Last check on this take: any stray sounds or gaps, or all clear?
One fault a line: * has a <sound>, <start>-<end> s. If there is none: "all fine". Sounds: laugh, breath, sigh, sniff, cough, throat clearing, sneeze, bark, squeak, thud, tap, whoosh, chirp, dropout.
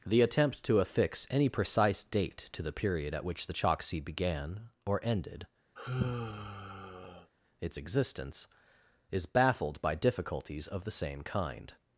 * has a sigh, 5.8-7.3 s